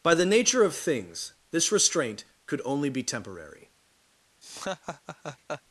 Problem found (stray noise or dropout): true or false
true